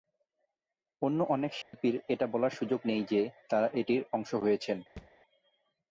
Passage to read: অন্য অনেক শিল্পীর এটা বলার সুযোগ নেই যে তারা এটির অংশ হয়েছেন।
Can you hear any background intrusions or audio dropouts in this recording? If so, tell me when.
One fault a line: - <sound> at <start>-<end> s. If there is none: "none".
- dropout at 1.6-1.7 s
- thud at 5.0-5.1 s